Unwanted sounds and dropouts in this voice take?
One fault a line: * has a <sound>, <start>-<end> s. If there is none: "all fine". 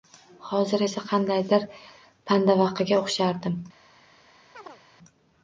* has a chirp, 4.5-4.8 s